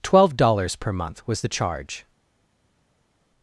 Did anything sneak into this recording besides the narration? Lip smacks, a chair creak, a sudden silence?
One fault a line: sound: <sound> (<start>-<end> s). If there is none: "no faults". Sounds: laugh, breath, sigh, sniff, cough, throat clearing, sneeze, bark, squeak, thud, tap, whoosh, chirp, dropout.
no faults